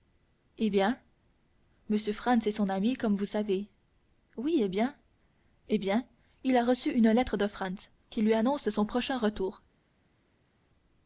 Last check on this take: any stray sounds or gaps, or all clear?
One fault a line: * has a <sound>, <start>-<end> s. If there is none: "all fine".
all fine